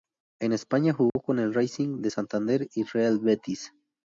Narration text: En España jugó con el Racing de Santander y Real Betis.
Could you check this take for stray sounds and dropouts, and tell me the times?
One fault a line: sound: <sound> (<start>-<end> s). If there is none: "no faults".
sound: dropout (1.1-1.2 s)